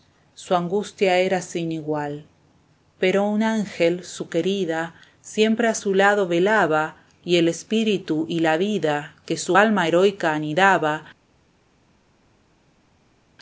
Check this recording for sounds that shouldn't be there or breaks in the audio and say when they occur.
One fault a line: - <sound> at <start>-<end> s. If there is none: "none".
none